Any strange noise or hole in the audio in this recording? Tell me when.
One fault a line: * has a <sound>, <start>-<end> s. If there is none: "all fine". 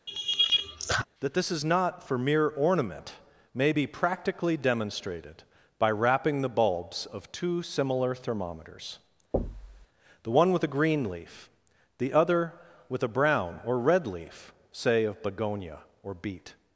* has a laugh, 0.1-1.1 s
* has a thud, 9.3-9.9 s